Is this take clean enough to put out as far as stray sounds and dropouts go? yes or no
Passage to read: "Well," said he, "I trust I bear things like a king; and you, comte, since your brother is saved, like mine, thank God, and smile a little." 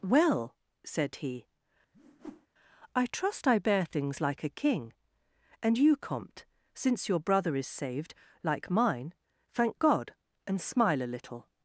no